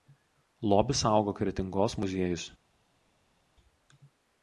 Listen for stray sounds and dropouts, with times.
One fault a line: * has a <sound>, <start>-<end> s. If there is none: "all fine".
all fine